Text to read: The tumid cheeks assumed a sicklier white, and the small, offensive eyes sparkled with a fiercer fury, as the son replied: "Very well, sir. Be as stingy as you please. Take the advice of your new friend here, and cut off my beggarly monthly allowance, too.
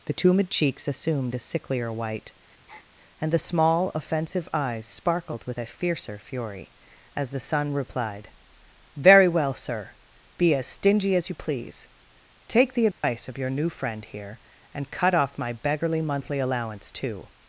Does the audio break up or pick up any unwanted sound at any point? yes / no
yes